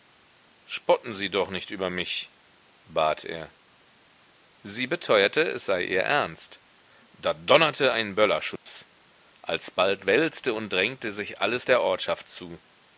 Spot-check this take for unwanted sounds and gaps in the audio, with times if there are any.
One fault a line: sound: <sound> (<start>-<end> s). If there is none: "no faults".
sound: dropout (8.6-8.7 s)